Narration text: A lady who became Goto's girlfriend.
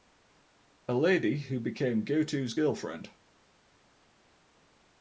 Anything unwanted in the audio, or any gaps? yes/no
no